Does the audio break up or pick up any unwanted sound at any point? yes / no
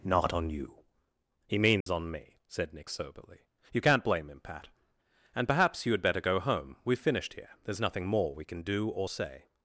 yes